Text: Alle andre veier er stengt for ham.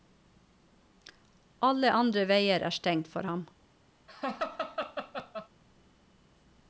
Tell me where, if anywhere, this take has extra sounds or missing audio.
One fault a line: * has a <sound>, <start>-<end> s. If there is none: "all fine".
* has a laugh, 4.1-5.5 s